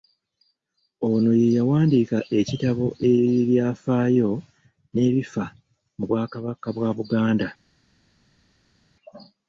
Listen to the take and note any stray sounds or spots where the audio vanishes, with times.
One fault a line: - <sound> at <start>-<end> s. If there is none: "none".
none